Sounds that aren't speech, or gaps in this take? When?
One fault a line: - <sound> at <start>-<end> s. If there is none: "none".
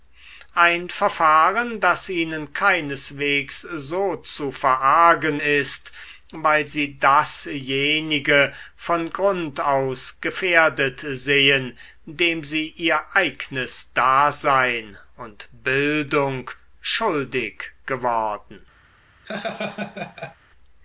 - laugh at 19.2-20.4 s